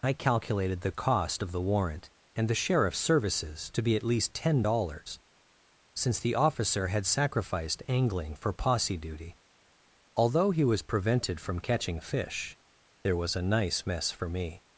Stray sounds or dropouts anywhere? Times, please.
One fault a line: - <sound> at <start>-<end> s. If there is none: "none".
none